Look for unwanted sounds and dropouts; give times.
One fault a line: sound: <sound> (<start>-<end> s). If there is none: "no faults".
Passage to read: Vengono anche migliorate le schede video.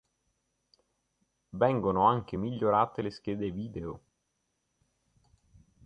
no faults